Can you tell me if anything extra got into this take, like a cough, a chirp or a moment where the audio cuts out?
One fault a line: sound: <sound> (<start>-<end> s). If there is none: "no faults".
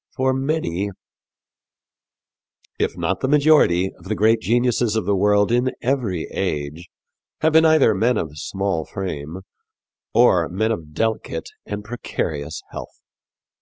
no faults